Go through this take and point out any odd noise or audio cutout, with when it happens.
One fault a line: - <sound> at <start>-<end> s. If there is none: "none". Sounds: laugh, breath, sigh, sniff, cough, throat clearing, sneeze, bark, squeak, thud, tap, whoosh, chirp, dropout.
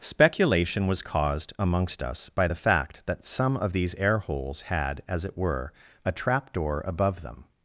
none